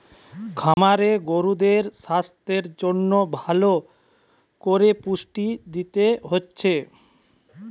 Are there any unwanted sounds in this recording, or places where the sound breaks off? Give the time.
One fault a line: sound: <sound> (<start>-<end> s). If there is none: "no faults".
sound: dropout (0.7-0.8 s)